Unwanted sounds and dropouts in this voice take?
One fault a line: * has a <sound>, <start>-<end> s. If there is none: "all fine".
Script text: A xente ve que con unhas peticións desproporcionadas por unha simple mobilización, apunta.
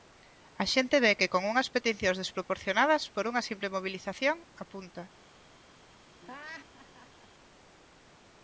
* has a laugh, 6.2-7.3 s